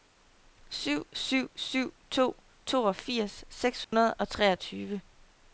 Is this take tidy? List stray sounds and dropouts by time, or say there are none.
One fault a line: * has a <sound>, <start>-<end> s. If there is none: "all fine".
* has a dropout, 3.8-3.9 s